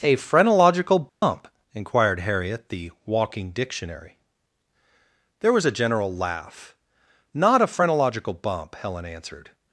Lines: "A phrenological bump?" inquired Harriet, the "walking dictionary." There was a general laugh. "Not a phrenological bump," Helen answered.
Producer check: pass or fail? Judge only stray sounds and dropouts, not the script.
fail